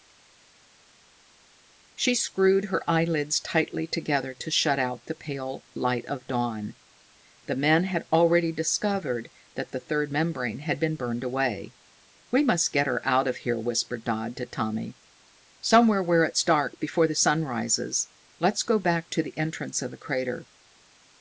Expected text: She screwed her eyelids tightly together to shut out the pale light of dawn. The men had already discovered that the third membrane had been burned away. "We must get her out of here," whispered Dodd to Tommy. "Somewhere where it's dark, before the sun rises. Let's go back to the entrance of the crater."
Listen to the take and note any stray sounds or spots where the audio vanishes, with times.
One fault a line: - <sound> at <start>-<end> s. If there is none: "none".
none